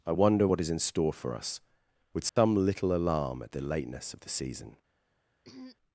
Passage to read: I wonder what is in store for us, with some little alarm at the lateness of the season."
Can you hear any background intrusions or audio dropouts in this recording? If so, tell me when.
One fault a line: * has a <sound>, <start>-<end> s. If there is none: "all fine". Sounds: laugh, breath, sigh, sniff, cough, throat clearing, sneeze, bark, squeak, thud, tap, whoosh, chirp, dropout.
* has a dropout, 2.3-2.4 s
* has a throat clearing, 5.4-5.8 s